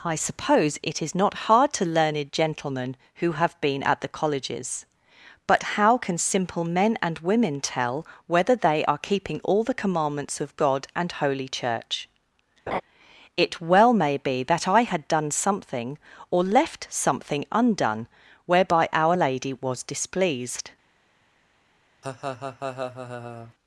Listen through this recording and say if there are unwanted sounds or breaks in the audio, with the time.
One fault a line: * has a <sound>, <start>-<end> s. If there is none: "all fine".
* has a laugh, 12.7-12.8 s
* has a laugh, 22.0-23.5 s